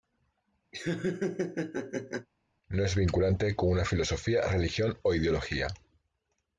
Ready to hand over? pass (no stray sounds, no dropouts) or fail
fail